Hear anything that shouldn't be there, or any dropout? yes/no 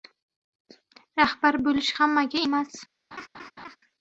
yes